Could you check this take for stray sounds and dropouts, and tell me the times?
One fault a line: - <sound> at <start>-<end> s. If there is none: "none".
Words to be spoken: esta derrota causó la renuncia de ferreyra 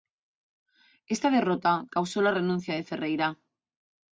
none